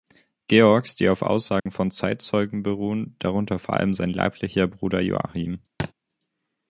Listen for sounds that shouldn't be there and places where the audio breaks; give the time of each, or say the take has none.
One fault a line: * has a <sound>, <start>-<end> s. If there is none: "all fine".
* has a dropout, 1.6-1.7 s
* has a thud, 5.8-5.9 s